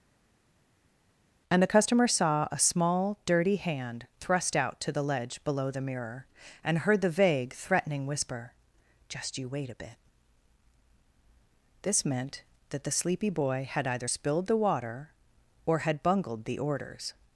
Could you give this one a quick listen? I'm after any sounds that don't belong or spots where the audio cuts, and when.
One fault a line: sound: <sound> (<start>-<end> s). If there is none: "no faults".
no faults